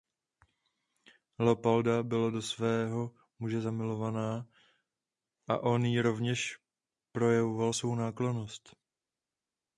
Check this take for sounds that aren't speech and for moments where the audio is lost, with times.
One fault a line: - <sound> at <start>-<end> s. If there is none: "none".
none